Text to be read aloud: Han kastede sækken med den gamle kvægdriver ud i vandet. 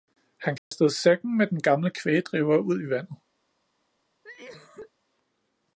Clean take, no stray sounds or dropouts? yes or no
no